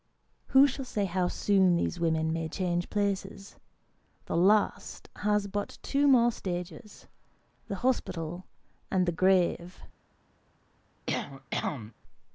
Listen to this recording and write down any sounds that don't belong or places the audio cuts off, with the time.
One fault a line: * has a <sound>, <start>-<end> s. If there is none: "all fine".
* has a cough, 11.1-11.9 s